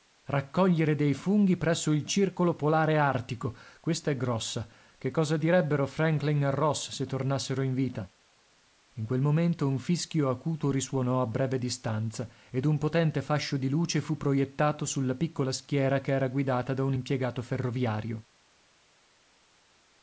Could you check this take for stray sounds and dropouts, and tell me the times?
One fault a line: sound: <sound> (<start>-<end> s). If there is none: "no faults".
no faults